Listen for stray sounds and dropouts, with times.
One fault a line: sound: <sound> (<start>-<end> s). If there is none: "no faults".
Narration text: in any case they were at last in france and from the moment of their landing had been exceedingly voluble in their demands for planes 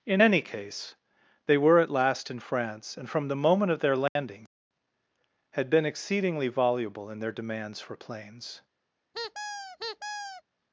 sound: dropout (4.1-4.2 s)
sound: squeak (9.1-10.4 s)